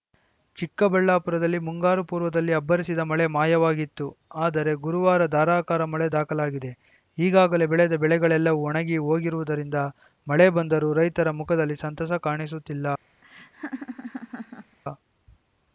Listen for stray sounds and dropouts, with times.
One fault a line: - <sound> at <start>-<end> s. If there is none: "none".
- laugh at 13.2-14.8 s